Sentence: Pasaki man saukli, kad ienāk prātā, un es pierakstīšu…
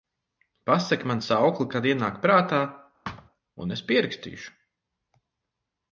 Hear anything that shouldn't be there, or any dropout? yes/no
yes